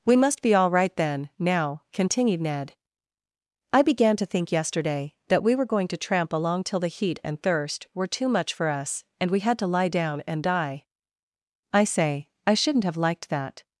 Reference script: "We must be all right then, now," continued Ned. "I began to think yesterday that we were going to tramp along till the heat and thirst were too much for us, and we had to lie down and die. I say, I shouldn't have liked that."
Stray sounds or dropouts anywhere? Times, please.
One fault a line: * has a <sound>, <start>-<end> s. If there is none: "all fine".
all fine